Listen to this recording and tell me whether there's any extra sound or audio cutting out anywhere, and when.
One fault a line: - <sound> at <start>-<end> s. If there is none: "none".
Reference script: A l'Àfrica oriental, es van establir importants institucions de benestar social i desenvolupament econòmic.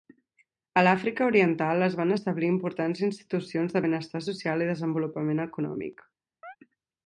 - chirp at 6.4-6.6 s